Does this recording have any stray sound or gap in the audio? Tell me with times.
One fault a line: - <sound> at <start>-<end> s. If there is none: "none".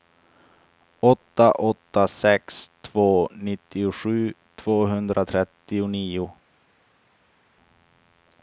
none